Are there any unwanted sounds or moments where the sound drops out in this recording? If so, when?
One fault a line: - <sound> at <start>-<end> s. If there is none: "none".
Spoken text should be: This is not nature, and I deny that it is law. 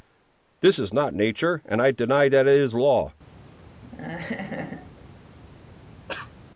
- laugh at 3.8-5.1 s
- cough at 6.1-6.3 s